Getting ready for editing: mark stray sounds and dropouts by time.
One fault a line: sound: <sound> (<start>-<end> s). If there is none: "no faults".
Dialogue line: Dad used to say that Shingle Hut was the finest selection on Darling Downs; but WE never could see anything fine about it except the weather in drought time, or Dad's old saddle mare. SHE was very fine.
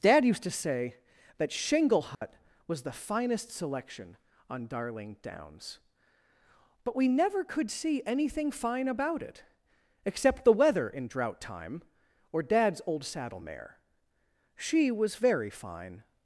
sound: dropout (2.1-2.2 s)